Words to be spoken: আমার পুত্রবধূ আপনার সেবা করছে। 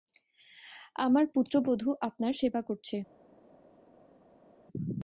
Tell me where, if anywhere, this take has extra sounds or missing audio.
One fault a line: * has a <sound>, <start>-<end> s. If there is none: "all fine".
all fine